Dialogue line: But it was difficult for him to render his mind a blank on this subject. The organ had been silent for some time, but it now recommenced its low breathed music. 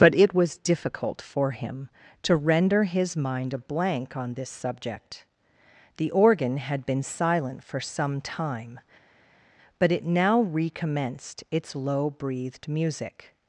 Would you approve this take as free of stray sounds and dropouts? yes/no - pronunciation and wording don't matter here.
yes